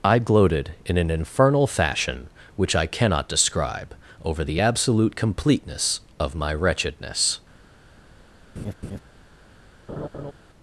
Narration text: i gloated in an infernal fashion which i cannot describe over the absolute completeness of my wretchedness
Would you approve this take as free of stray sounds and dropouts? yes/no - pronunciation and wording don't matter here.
no